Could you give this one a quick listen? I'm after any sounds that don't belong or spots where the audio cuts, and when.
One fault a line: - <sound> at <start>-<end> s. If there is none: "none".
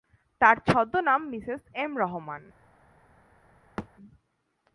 - thud at 3.8-3.9 s